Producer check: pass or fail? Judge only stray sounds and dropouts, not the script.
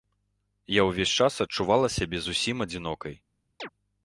fail